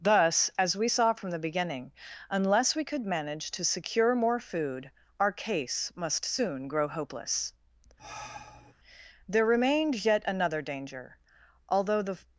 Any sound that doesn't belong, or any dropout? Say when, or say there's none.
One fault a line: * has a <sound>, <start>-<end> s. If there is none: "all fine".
* has a sigh, 8.0-8.7 s